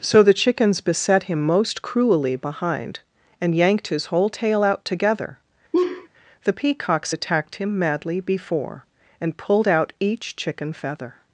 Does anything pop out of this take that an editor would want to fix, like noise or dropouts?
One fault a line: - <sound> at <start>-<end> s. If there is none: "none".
- laugh at 5.7-6.1 s